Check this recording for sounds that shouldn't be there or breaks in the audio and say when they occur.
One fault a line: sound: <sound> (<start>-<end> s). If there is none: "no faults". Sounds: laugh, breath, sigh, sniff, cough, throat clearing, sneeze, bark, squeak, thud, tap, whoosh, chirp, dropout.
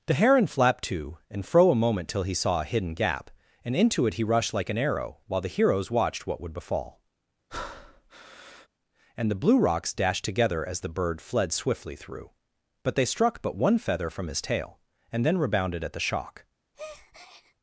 sound: breath (7.5-8.7 s)
sound: breath (16.7-17.5 s)